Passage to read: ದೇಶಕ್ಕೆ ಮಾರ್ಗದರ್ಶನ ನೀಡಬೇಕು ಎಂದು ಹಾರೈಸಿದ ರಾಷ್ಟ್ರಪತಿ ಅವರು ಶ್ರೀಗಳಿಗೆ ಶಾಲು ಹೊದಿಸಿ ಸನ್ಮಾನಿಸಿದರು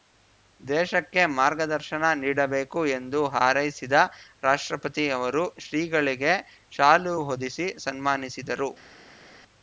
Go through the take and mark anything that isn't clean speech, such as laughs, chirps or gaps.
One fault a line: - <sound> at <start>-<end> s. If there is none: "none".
none